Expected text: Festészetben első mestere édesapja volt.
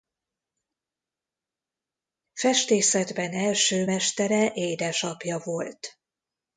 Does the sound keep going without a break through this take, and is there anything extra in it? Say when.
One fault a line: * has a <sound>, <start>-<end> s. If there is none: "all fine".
all fine